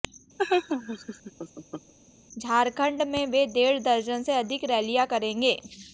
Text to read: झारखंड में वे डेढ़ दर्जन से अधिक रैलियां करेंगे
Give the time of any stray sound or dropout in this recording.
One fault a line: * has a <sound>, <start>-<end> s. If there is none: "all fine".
* has a laugh, 0.4-1.9 s